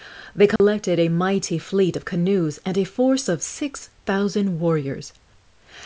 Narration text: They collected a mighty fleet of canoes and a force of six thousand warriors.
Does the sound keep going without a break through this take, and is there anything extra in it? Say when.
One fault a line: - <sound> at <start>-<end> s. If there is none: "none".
- dropout at 0.6-0.6 s